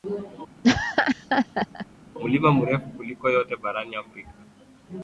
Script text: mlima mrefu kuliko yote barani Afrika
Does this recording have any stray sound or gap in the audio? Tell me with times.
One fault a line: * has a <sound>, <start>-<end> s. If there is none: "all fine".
* has a laugh, 0.6-1.9 s